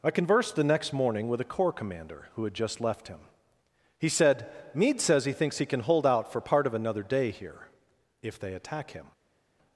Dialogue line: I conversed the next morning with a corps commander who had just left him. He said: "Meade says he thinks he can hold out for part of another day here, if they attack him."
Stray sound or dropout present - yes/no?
no